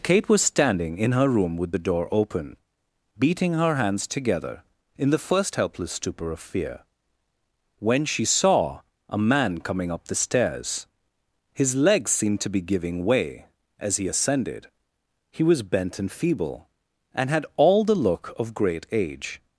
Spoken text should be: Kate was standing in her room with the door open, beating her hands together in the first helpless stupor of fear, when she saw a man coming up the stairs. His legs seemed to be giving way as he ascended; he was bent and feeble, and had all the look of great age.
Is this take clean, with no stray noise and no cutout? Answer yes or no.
yes